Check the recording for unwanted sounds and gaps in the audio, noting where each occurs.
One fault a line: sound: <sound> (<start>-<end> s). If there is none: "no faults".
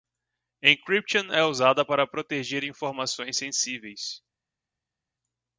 no faults